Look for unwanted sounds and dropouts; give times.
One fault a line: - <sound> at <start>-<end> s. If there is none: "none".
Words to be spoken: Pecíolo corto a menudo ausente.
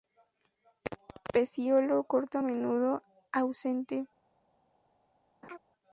- laugh at 5.4-5.6 s